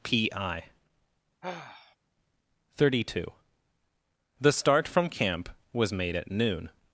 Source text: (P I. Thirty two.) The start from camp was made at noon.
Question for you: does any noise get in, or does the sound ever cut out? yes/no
yes